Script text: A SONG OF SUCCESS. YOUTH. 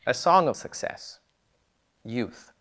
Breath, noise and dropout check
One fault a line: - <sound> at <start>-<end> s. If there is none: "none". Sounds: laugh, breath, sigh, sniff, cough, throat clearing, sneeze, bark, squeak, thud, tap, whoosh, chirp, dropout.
none